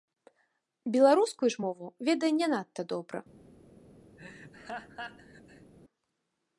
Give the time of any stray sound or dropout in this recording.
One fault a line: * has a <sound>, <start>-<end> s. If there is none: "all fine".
* has a laugh, 4.2-5.7 s